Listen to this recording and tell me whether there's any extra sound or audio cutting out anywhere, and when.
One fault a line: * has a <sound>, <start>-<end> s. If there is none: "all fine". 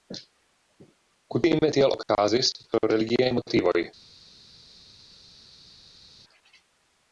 all fine